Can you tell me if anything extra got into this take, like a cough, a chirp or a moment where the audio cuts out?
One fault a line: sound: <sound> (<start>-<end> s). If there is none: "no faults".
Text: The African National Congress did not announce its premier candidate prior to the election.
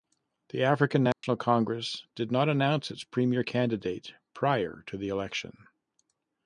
sound: dropout (1.1-1.2 s)